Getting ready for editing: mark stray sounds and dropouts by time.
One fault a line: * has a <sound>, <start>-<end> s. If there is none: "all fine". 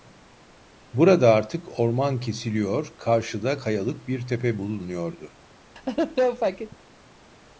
* has a laugh, 5.8-6.8 s